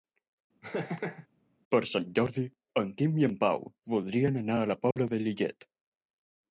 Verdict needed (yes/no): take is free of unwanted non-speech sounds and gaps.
no